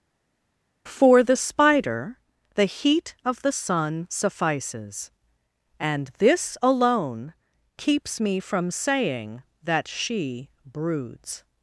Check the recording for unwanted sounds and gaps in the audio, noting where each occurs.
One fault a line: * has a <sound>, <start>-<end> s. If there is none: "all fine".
all fine